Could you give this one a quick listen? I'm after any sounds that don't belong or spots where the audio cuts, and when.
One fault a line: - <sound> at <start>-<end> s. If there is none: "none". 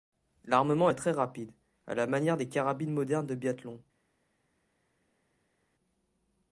none